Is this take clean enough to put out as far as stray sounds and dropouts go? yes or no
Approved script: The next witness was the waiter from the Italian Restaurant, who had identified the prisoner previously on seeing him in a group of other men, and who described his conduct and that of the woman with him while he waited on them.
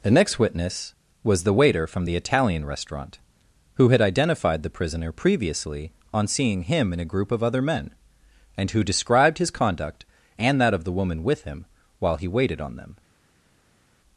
yes